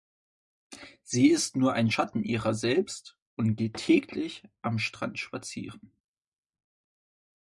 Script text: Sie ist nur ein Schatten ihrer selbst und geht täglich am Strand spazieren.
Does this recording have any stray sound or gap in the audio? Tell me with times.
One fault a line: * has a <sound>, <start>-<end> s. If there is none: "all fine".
all fine